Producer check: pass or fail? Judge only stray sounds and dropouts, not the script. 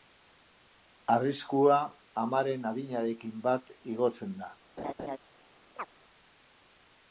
fail